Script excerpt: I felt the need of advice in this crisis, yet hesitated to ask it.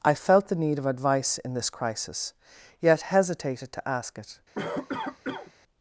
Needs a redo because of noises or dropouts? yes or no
yes